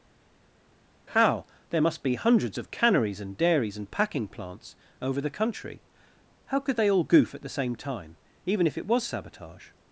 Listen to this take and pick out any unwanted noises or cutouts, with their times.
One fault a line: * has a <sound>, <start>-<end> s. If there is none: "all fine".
all fine